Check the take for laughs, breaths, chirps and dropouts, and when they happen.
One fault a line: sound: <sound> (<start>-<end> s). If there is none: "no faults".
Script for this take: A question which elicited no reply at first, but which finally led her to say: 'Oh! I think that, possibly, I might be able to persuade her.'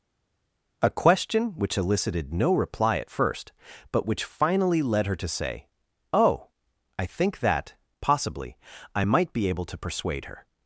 no faults